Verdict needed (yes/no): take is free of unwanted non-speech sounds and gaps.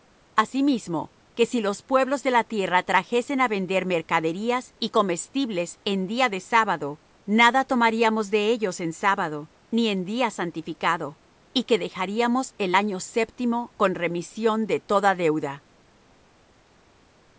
yes